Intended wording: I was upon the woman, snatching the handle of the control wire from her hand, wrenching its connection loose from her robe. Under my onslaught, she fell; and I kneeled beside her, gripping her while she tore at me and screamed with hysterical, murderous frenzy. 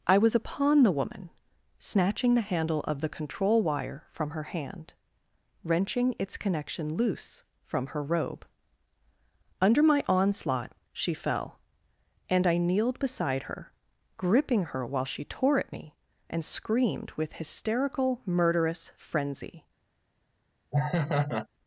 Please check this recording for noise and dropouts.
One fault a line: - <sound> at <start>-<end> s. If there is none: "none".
- laugh at 20.7-21.5 s